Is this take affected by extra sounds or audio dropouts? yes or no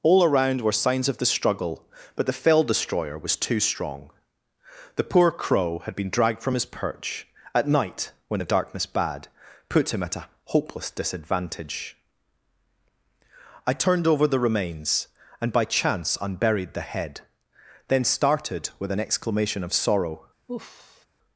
yes